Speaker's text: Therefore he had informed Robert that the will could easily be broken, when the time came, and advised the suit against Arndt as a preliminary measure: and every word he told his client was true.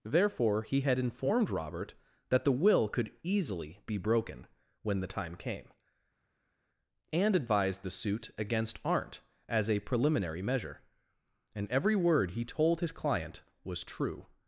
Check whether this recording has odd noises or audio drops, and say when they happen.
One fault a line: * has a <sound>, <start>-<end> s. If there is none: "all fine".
all fine